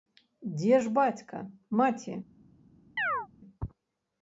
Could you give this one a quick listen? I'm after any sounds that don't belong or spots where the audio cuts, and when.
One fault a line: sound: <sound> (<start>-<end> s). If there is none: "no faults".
sound: chirp (3.0-3.3 s)